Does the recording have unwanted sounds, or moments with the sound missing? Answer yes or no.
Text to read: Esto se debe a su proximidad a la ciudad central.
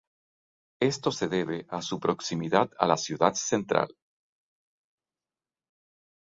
no